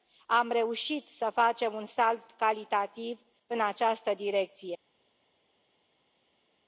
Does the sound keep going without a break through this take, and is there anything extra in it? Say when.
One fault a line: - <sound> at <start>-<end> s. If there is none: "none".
none